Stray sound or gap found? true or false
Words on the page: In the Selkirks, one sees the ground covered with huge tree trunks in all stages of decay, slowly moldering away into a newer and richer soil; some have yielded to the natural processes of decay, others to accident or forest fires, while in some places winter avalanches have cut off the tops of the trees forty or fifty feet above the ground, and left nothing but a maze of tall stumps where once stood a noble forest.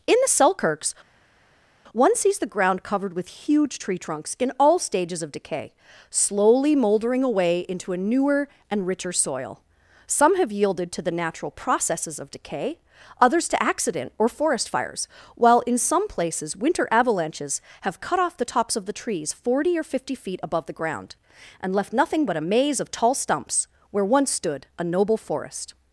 false